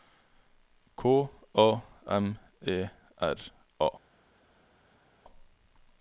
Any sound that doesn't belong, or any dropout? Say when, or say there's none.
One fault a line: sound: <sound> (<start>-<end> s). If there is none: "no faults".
no faults